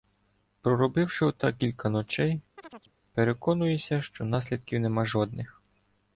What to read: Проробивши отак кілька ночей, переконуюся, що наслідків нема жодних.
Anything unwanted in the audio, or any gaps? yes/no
yes